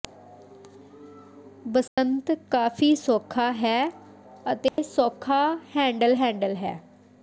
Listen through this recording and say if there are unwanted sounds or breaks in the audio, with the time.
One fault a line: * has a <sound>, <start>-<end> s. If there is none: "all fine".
* has a dropout, 1.9-2.0 s
* has a dropout, 4.7-4.8 s